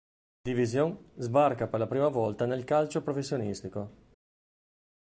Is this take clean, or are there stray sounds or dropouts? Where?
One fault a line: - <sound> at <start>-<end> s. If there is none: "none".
none